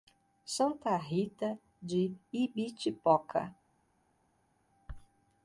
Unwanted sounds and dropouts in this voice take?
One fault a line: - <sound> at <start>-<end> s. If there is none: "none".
none